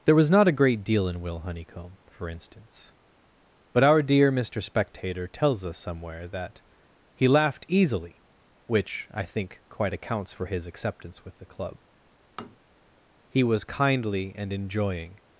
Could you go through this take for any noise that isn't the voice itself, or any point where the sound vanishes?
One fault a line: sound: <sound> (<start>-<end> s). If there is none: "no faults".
sound: tap (12.4-12.6 s)